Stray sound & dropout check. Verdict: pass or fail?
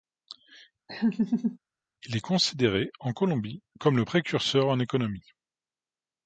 fail